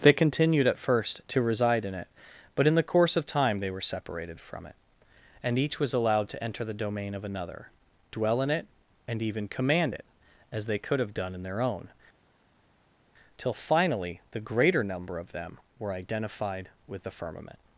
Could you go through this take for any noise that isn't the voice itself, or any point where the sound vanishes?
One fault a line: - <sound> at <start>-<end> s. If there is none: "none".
none